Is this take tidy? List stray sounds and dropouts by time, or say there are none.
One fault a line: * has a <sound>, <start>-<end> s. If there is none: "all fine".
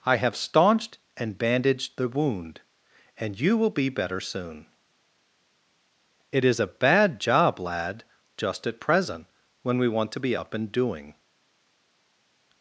all fine